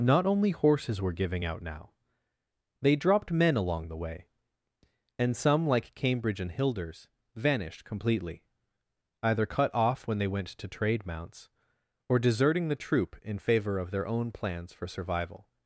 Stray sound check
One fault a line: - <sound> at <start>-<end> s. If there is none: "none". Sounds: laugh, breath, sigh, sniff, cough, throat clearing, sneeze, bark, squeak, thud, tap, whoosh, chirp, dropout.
none